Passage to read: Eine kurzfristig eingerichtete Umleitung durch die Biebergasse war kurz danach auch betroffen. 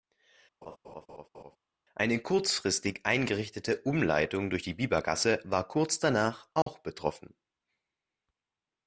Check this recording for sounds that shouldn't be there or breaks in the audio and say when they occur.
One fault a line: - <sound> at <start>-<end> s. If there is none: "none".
- laugh at 0.6-1.6 s
- dropout at 6.6-6.7 s